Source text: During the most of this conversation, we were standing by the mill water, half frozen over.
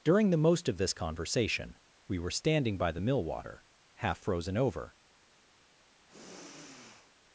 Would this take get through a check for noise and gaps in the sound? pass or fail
fail